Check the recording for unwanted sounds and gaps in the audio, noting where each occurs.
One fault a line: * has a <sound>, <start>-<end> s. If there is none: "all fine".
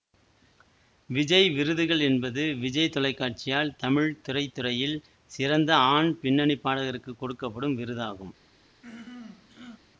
* has a throat clearing, 8.8-9.8 s